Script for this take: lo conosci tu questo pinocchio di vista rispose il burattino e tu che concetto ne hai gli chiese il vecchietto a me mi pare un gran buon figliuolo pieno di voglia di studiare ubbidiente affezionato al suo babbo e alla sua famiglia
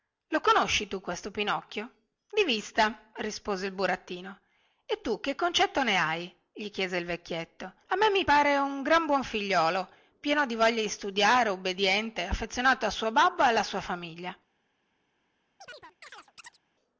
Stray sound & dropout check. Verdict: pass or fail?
fail